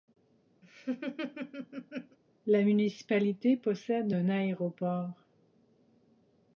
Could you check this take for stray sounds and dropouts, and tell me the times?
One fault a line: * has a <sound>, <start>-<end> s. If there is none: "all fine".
* has a laugh, 0.6-2.2 s